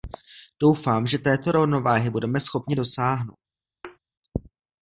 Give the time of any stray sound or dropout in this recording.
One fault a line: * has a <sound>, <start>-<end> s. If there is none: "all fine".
* has a thud, 3.8-4.0 s